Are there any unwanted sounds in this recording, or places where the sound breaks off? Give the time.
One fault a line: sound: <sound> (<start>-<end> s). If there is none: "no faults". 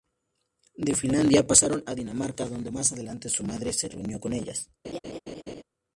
sound: laugh (4.8-5.6 s)